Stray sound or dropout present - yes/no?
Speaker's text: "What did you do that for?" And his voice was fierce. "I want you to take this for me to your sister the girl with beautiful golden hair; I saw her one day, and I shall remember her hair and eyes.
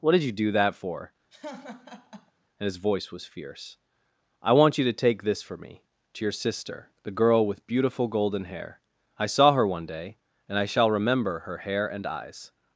yes